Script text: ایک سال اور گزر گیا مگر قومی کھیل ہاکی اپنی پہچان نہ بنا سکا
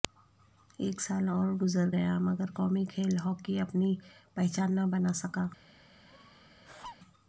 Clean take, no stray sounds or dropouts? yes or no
no